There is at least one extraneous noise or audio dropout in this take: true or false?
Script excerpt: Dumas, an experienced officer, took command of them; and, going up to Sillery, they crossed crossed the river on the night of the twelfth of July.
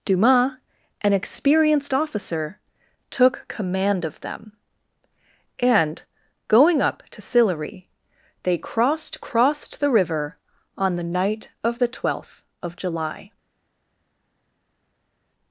false